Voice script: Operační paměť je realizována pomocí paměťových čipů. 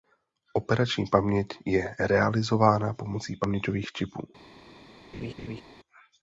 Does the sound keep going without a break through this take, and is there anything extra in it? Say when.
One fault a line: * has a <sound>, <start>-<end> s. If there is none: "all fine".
* has a laugh, 5.1-5.6 s